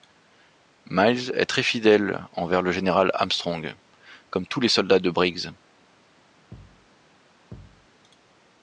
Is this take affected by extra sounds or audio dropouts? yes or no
yes